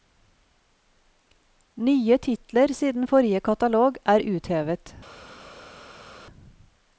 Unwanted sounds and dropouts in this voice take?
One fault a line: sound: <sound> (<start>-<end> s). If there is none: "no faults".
no faults